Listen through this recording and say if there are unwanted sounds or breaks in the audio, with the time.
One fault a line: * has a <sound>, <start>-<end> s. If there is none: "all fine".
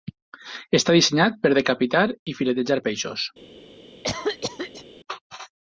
* has a cough, 4.0-4.9 s